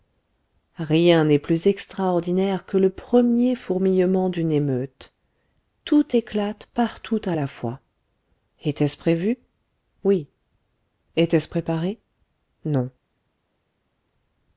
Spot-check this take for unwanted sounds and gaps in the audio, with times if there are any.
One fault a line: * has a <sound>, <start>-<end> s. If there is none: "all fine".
all fine